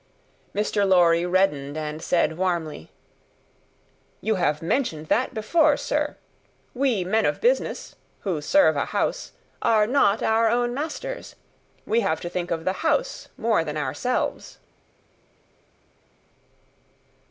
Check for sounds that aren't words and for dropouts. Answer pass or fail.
pass